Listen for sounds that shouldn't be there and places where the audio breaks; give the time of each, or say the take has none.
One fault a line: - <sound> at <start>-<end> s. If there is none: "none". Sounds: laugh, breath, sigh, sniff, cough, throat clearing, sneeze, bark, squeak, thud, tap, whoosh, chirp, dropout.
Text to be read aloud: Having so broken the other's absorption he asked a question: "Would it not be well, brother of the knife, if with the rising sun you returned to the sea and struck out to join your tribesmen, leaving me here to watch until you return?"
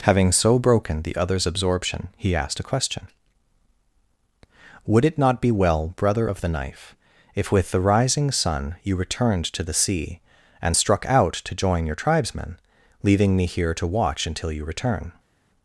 none